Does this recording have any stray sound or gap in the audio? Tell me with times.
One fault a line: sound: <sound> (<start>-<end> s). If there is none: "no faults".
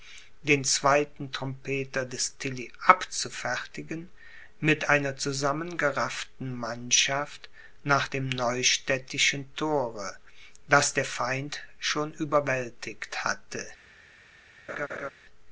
sound: laugh (14.7-15.1 s)